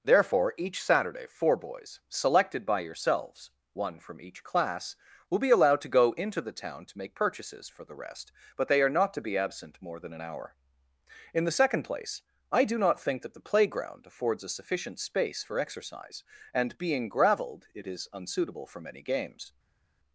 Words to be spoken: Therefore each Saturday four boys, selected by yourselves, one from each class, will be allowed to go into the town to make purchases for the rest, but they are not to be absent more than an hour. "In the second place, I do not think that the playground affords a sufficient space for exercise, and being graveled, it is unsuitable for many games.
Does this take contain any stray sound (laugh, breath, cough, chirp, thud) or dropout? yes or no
no